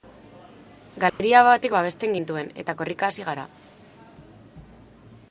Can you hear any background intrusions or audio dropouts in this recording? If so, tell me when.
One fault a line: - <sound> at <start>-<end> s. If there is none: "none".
- dropout at 1.1-1.2 s